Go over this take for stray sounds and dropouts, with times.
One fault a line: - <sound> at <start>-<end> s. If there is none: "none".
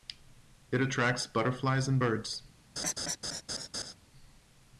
- laugh at 2.8-3.9 s